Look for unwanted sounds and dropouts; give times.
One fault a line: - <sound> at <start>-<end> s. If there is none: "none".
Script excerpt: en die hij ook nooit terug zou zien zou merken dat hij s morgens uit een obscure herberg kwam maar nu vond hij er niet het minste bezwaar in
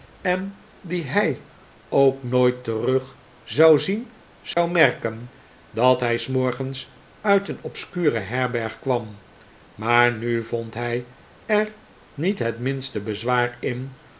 - dropout at 4.5-4.6 s